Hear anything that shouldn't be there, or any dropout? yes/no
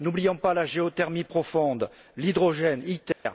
yes